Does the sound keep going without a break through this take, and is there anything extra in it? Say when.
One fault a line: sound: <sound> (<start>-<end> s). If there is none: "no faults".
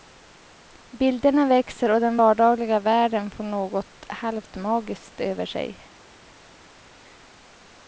no faults